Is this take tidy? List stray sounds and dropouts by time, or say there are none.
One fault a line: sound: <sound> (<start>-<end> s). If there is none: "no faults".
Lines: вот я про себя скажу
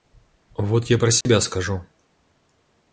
sound: dropout (1.2-1.3 s)